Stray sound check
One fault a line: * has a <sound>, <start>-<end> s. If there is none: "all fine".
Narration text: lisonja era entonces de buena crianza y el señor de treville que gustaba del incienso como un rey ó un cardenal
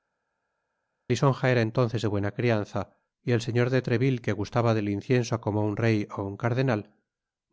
all fine